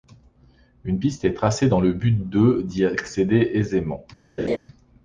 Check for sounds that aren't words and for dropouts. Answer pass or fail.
fail